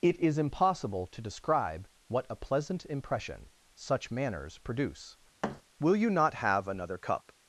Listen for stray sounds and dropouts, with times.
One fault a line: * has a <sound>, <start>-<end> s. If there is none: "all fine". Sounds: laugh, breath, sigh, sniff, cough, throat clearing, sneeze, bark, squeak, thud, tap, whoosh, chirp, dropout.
* has a thud, 5.4-5.6 s